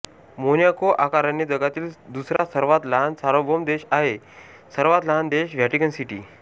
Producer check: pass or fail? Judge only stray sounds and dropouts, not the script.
fail